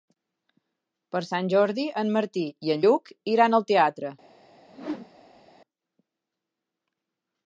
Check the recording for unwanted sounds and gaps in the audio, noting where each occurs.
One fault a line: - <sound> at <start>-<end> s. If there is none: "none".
- whoosh at 4.7-5.5 s